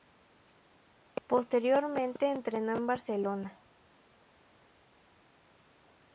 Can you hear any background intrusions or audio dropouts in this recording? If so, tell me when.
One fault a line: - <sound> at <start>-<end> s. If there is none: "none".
none